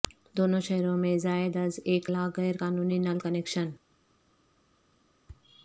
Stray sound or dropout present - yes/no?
no